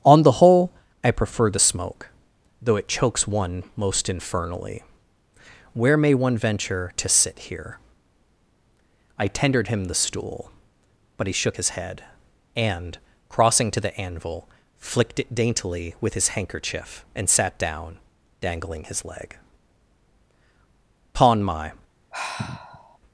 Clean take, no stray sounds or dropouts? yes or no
no